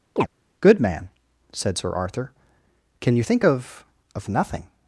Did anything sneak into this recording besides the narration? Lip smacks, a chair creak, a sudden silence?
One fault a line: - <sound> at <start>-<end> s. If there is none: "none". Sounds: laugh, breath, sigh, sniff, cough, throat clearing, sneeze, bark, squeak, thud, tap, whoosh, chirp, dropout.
- chirp at 0.2-0.3 s